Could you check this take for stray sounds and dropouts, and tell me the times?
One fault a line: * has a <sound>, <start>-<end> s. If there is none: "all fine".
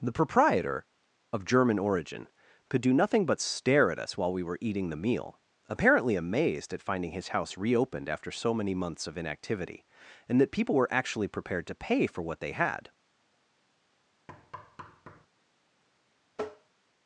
* has a thud, 14.3-15.3 s
* has a tap, 16.3-16.7 s